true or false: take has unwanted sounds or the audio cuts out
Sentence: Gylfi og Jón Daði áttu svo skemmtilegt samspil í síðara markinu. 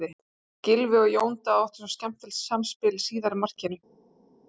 false